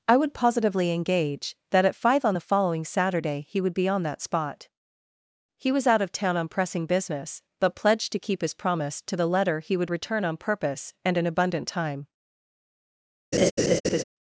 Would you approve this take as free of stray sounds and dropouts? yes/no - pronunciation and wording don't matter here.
no